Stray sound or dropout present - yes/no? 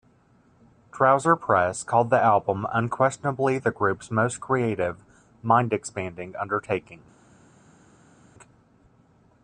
no